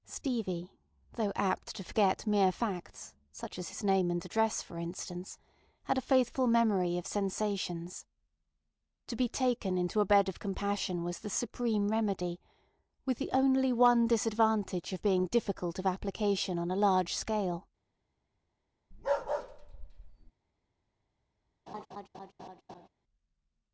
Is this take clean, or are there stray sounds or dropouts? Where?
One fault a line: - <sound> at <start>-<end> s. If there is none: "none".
- bark at 18.9-20.3 s
- laugh at 21.7-22.9 s